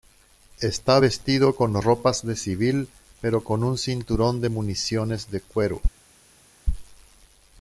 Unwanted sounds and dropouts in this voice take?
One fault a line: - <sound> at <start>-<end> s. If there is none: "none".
none